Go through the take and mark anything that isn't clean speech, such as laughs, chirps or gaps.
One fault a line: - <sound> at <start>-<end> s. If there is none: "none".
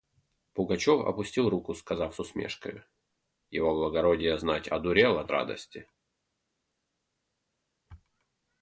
none